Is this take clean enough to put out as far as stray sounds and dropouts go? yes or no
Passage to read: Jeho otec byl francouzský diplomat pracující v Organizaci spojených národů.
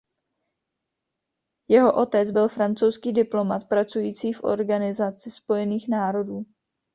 yes